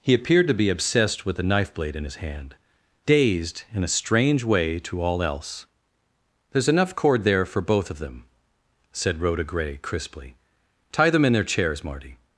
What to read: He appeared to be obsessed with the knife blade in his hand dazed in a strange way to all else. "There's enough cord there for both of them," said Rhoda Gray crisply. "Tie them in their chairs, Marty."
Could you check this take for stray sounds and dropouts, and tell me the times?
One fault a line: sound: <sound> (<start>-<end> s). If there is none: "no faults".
no faults